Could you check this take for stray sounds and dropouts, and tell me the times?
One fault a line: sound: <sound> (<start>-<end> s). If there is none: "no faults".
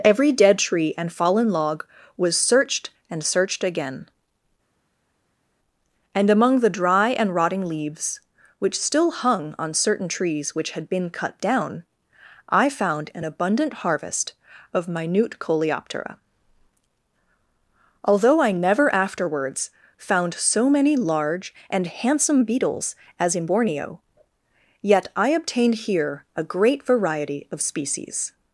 no faults